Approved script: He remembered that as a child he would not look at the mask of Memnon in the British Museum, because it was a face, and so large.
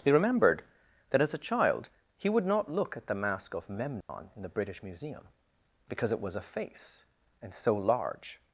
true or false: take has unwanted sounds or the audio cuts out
true